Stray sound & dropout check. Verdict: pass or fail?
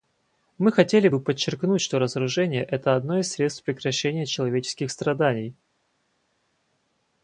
pass